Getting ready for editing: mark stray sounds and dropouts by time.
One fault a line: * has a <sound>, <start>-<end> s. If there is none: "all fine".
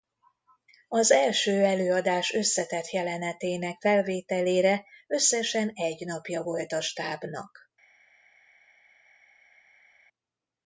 all fine